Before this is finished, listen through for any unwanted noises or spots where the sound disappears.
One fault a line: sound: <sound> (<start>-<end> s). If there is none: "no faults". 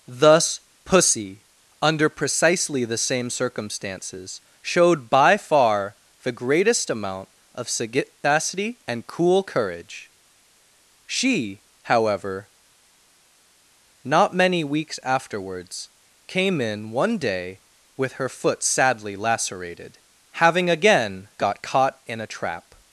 no faults